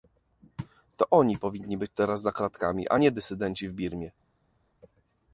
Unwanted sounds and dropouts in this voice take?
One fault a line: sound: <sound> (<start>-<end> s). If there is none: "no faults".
no faults